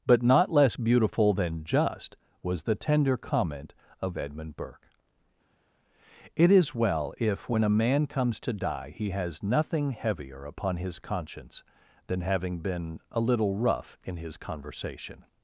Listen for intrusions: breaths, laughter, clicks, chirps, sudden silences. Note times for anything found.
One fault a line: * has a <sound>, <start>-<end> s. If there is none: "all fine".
all fine